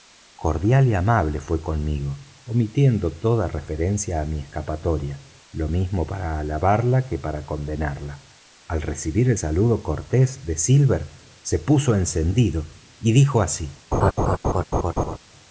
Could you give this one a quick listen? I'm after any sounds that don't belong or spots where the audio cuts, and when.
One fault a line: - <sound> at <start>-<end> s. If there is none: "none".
- laugh at 13.9-15.2 s